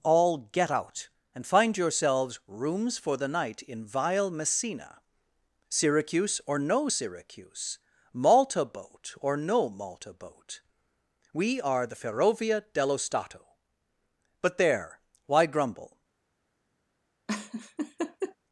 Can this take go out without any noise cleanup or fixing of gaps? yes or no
no